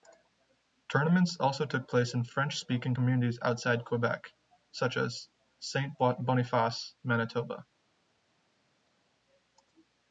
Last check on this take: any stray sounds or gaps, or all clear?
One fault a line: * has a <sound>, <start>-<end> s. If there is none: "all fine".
all fine